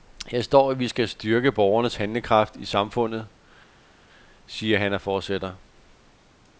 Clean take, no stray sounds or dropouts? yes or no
yes